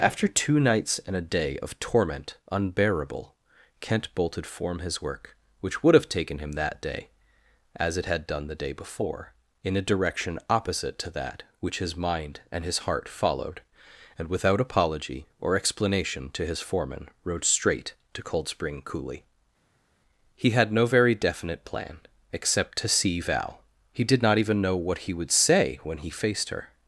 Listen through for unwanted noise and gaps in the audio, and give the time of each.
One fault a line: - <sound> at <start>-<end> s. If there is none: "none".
none